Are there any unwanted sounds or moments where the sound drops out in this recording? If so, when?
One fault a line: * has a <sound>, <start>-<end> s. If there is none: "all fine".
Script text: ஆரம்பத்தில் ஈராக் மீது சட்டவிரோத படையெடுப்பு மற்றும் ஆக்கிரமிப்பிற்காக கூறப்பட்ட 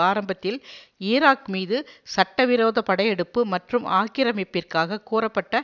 all fine